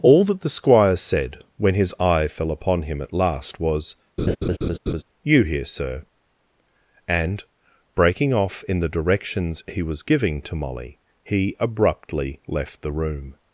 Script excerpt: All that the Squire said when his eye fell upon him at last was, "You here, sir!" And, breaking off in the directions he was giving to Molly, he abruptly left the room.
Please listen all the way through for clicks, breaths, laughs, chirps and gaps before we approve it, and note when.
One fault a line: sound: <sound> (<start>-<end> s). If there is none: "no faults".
sound: laugh (4.2-5.0 s)